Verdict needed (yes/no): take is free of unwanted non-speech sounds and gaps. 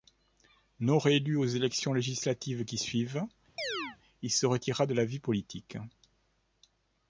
no